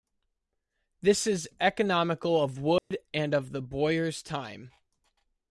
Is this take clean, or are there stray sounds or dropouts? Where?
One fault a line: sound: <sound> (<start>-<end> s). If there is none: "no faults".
sound: dropout (2.8-2.9 s)